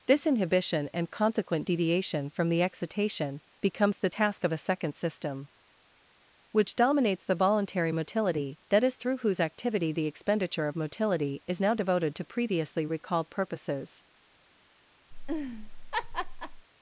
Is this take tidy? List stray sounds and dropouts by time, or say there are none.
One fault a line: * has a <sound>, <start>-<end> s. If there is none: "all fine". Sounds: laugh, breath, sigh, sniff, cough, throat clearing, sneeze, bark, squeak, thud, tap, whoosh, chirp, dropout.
* has a laugh, 15.1-16.7 s